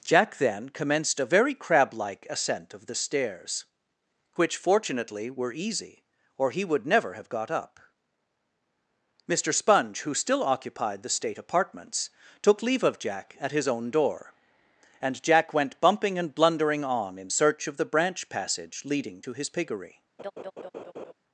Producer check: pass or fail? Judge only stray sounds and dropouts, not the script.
fail